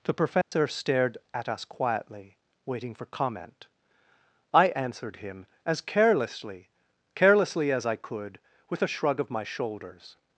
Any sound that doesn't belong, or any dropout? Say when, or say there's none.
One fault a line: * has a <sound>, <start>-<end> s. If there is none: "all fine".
* has a dropout, 0.4-0.5 s